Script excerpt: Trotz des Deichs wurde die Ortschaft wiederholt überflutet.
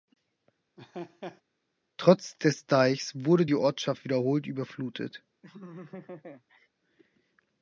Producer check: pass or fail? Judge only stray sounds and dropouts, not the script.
fail